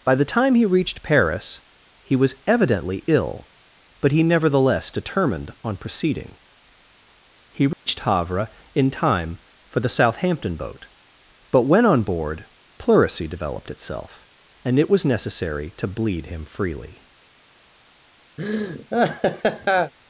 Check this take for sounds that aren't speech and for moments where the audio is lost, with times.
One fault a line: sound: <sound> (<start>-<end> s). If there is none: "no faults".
sound: dropout (7.7-7.9 s)
sound: laugh (18.4-19.9 s)